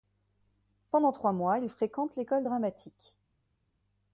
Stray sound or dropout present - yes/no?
no